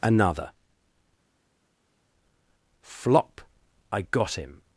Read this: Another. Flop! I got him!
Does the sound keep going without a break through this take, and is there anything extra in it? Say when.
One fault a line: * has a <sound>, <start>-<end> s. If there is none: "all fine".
all fine